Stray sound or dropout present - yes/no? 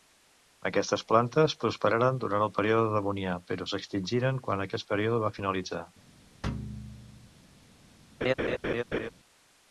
yes